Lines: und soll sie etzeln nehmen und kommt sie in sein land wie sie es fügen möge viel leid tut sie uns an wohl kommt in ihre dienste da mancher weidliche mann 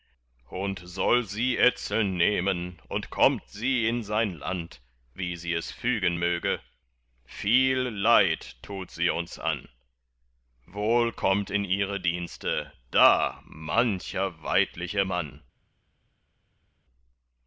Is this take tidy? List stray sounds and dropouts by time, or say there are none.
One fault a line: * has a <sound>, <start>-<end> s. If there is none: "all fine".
all fine